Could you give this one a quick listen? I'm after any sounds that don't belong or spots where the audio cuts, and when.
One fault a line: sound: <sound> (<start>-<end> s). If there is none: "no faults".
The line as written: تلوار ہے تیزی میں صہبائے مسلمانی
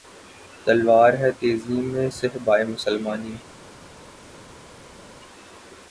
no faults